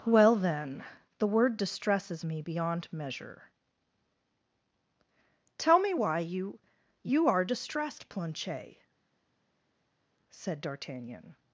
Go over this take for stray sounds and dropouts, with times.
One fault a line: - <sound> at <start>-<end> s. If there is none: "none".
none